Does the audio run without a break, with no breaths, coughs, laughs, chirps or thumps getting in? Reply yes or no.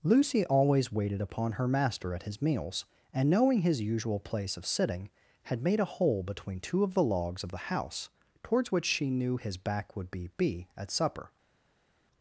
yes